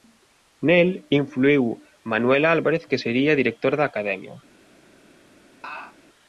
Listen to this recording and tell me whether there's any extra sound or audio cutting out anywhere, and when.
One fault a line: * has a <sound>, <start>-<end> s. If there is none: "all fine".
* has a laugh, 5.6-6.0 s